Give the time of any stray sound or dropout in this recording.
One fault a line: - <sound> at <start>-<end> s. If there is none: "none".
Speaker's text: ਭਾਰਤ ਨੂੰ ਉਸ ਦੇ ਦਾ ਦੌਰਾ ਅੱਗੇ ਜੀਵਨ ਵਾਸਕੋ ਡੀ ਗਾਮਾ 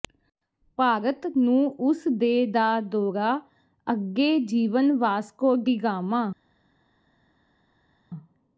none